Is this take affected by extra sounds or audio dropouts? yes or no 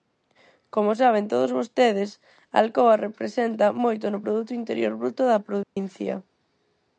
yes